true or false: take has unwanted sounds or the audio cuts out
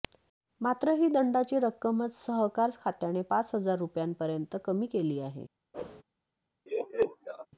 true